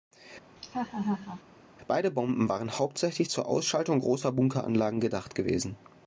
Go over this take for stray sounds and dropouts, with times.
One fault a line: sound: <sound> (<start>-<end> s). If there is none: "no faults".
sound: laugh (0.6-1.4 s)